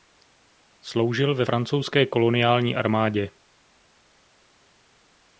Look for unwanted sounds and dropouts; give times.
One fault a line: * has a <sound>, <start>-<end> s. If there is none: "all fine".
all fine